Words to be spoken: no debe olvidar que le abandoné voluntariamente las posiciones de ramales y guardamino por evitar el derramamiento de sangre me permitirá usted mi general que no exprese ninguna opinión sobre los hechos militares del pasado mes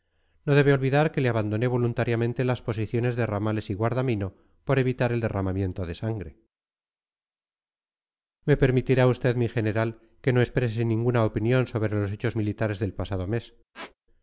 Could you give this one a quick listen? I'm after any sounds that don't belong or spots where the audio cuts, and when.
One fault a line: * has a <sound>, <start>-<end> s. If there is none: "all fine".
* has a squeak, 13.7-13.9 s